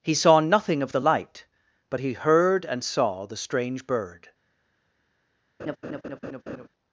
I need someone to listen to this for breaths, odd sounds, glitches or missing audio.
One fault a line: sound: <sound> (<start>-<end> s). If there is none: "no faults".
sound: laugh (5.6-6.7 s)